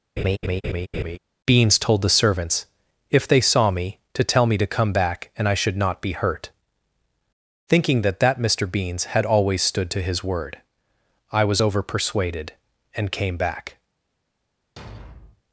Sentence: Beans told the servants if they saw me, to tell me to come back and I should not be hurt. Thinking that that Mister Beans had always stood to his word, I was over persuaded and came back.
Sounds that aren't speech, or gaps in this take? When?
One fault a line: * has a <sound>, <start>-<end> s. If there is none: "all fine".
* has a laugh, 0.2-1.2 s
* has a thud, 14.8-15.4 s